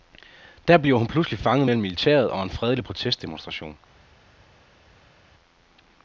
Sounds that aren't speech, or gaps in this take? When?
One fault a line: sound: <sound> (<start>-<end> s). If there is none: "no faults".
no faults